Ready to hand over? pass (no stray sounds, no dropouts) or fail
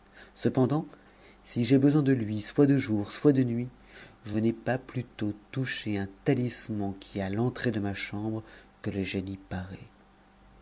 pass